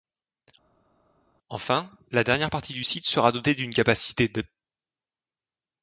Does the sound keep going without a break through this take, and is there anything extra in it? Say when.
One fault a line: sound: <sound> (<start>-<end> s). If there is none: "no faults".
no faults